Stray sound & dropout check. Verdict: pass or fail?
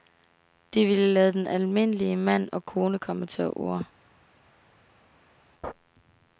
pass